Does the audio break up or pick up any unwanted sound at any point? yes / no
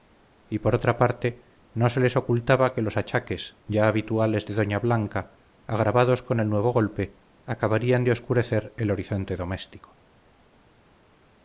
no